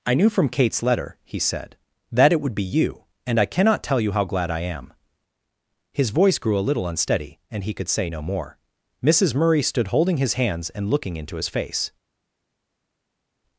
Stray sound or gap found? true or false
false